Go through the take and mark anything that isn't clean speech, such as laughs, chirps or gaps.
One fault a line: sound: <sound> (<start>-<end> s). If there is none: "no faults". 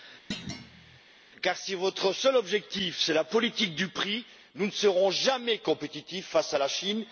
sound: thud (0.3-1.0 s)